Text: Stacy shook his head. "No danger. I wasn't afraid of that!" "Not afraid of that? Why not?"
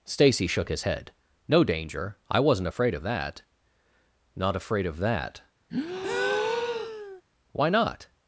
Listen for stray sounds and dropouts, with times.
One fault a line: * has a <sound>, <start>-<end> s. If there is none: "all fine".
* has a breath, 5.7-7.2 s